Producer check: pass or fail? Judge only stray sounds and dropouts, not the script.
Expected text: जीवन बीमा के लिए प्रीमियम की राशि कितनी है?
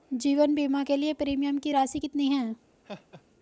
fail